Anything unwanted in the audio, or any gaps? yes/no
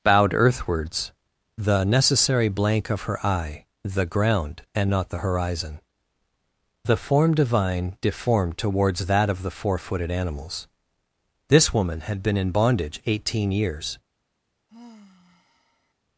yes